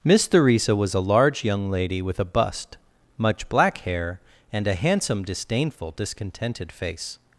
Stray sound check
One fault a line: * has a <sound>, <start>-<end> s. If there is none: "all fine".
all fine